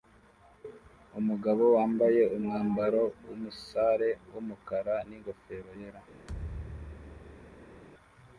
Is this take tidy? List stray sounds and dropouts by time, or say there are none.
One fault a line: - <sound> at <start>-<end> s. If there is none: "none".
- thud at 6.3-7.8 s